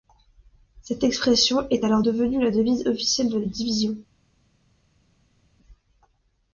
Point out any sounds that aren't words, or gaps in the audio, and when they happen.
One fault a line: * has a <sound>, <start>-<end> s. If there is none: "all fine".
all fine